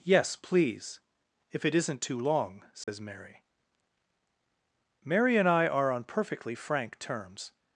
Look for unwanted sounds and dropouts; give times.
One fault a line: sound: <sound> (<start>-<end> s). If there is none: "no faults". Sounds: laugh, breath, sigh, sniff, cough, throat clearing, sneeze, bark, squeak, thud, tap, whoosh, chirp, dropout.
sound: dropout (2.8-2.9 s)